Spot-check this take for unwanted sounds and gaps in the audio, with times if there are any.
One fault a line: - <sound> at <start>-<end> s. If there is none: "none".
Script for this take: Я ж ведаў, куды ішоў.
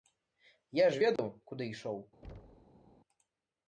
- dropout at 1.2-1.2 s
- thud at 2.2-3.0 s